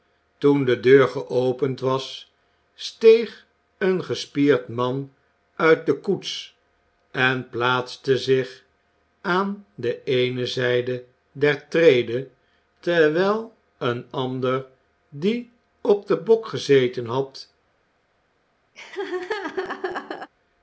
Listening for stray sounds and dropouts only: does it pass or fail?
fail